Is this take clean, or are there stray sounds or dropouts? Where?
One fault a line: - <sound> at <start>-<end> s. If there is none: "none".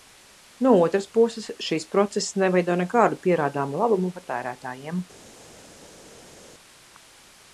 none